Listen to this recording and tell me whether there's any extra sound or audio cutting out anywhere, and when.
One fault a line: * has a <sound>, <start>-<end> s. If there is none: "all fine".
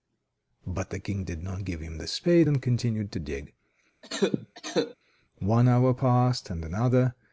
* has a cough, 4.0-4.9 s